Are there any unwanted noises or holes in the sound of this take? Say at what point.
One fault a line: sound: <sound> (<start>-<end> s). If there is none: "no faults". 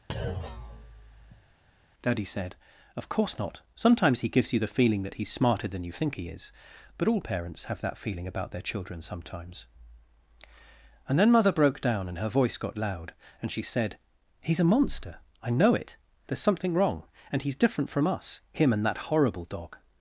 sound: thud (0.1-1.4 s)